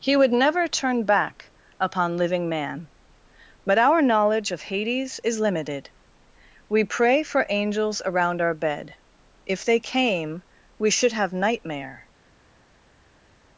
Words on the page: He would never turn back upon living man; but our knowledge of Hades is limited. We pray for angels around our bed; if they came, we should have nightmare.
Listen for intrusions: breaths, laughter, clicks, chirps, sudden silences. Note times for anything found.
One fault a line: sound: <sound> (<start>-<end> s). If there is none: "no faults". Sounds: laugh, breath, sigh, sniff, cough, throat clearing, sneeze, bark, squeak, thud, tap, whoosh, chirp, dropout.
no faults